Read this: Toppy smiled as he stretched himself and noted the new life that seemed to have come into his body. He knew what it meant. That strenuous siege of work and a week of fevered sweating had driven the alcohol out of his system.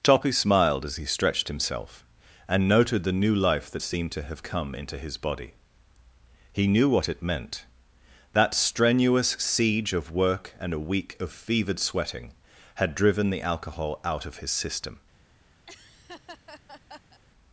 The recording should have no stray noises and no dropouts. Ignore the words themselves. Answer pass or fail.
fail